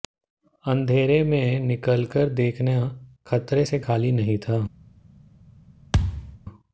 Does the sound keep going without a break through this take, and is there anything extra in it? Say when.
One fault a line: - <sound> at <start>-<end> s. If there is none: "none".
- thud at 5.9-6.4 s